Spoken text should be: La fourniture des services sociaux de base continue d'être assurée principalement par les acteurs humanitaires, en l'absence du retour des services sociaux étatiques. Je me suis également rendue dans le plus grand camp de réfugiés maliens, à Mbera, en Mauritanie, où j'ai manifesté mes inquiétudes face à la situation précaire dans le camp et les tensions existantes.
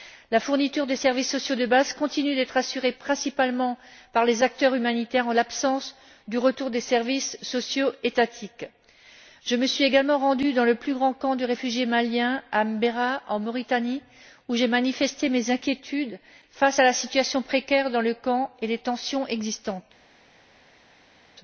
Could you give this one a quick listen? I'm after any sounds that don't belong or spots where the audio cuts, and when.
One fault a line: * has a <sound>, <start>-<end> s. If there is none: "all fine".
all fine